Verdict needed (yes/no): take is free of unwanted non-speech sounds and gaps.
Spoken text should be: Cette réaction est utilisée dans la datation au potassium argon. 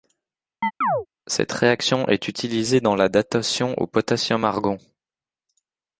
no